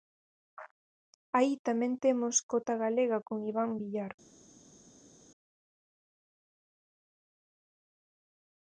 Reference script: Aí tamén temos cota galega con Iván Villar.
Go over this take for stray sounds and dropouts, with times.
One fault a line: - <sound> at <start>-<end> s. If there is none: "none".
none